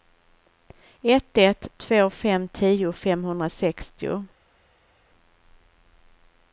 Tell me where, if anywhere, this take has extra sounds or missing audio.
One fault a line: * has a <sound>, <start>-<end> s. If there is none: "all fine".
all fine